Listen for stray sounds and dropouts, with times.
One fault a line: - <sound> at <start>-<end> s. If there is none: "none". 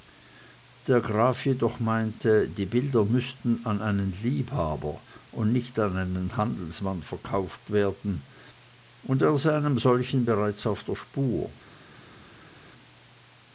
none